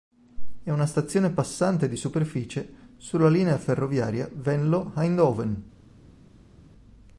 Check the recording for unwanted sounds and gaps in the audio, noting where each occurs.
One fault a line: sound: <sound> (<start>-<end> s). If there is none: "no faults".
no faults